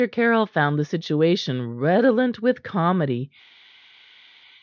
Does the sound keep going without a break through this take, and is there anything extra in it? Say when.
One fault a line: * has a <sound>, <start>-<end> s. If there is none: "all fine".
all fine